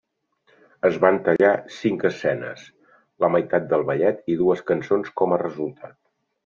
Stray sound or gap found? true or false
true